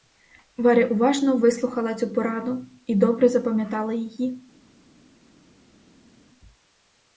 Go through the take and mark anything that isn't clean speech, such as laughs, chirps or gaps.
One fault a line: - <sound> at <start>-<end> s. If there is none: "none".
none